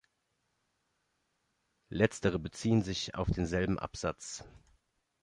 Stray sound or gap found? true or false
false